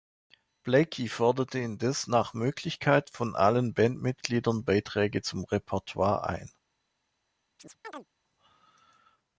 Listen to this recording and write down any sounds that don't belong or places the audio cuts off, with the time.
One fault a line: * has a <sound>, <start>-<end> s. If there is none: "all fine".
* has a chirp, 7.6-8.1 s